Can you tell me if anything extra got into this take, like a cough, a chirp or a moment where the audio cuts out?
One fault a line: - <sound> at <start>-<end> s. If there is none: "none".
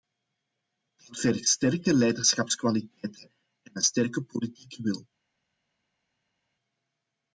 none